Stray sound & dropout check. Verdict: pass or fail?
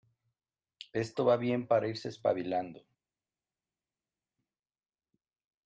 pass